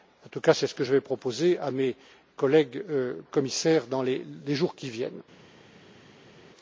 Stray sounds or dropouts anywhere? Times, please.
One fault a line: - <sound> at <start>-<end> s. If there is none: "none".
none